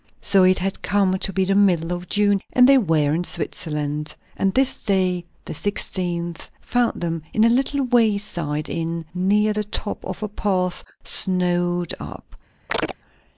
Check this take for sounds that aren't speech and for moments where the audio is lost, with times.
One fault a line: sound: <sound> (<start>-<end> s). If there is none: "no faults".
sound: chirp (12.7-13.0 s)